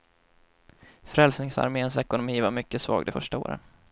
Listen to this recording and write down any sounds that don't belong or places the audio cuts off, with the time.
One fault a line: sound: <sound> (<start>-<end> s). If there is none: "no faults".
no faults